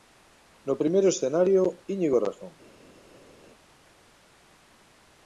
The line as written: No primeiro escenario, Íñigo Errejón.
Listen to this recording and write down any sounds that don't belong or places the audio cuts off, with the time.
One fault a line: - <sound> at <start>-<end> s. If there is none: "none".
none